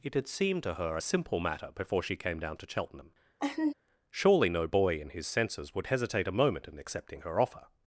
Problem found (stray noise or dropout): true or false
true